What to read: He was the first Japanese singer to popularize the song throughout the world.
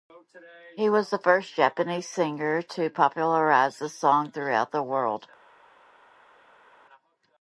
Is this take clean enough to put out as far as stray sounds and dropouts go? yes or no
yes